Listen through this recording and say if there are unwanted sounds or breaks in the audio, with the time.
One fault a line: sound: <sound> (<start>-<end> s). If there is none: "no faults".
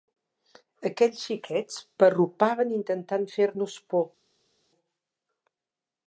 no faults